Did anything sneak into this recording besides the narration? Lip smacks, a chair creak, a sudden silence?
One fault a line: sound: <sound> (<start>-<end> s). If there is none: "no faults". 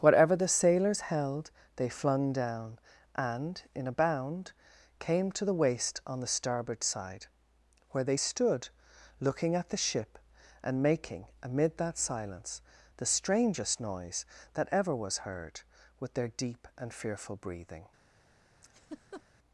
sound: laugh (18.6-19.2 s)